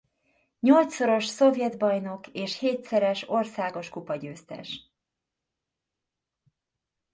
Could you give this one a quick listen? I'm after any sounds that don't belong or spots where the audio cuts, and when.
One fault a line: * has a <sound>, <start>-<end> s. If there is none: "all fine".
all fine